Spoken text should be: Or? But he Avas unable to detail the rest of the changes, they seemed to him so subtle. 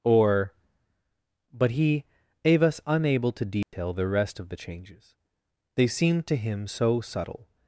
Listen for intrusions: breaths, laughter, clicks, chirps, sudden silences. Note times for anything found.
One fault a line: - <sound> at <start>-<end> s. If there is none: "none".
- dropout at 3.6-3.7 s